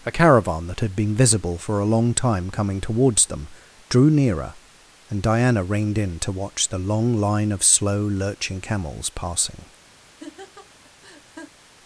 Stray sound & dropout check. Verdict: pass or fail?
fail